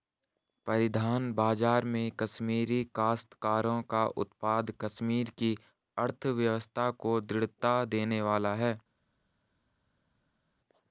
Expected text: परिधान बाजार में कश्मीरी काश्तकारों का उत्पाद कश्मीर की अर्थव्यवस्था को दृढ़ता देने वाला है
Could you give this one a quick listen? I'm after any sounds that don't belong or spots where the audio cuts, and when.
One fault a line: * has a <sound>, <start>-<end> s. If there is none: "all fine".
all fine